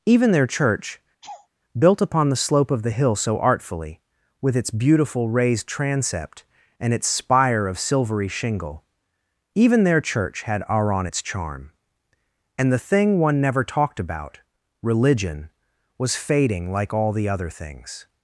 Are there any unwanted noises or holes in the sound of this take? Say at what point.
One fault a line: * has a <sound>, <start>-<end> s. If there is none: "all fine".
* has a laugh, 1.2-1.5 s